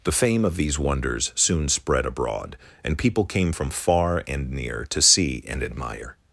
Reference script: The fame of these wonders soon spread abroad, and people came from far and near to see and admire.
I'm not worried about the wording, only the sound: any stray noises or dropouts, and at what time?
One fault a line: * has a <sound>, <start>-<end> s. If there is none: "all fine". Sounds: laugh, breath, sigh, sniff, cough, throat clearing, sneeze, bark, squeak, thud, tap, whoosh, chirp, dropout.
all fine